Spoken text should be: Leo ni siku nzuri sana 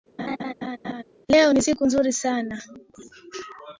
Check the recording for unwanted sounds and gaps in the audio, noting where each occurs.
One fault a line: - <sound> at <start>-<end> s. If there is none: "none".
- laugh at 0.2-1.0 s